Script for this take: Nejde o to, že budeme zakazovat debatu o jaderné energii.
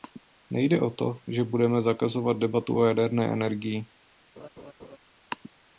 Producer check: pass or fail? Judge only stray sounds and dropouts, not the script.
fail